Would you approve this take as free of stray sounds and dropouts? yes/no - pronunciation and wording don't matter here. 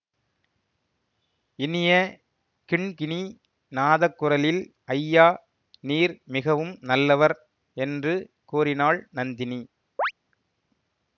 no